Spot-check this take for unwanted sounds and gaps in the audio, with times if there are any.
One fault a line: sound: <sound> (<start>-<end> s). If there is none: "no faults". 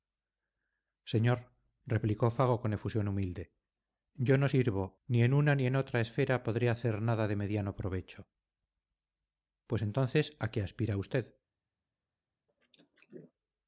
sound: throat clearing (12.5-13.3 s)